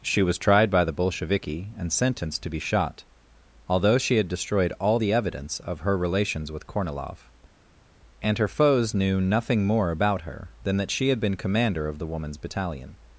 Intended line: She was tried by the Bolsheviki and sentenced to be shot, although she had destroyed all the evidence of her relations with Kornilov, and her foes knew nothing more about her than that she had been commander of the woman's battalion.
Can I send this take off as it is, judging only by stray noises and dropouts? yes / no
yes